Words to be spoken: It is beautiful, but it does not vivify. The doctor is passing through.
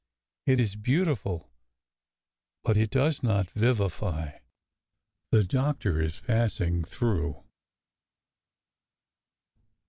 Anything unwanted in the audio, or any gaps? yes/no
no